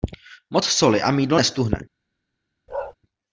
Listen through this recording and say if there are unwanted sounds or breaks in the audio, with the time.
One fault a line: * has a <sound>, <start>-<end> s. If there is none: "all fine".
* has a bark, 2.7-2.9 s